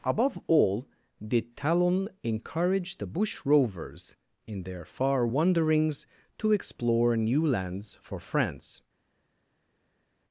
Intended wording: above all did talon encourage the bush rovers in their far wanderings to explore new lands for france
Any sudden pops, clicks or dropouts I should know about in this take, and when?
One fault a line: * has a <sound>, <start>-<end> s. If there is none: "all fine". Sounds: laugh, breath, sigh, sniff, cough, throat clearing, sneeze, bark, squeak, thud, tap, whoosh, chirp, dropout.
all fine